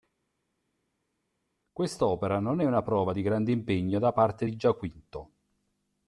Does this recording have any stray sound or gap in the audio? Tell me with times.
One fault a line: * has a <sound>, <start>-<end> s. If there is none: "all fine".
all fine